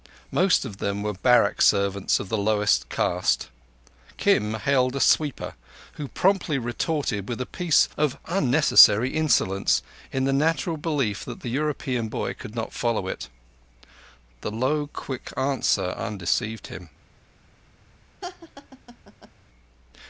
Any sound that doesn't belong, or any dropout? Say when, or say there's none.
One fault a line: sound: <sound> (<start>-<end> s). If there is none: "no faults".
sound: laugh (18.2-19.3 s)